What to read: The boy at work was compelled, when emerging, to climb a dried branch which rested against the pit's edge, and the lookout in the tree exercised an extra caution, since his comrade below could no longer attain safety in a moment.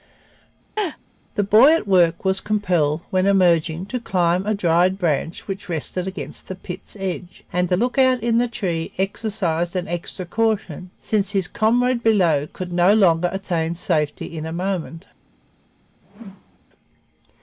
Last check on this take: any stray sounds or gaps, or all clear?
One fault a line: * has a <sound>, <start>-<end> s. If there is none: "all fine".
* has a laugh, 0.8-1.0 s
* has a whoosh, 16.0-16.6 s